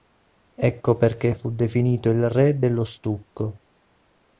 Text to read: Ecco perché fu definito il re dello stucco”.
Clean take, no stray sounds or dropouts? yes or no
yes